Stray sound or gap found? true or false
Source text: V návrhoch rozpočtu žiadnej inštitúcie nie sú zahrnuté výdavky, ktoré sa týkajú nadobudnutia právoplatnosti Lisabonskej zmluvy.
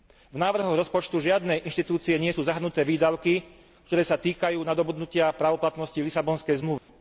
true